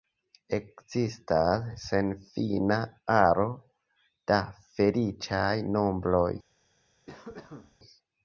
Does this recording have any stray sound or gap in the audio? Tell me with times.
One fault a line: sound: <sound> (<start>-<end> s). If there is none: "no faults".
sound: cough (7.1-7.8 s)